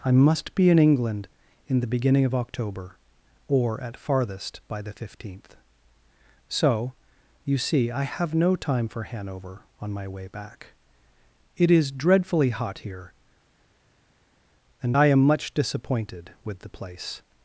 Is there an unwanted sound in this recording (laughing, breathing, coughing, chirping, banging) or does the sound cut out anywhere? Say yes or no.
no